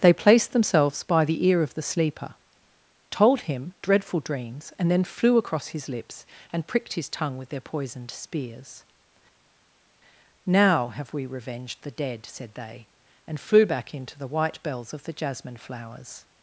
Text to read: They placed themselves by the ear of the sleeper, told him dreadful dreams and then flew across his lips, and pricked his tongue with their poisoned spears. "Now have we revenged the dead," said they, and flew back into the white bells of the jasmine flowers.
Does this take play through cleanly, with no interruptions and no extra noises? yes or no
yes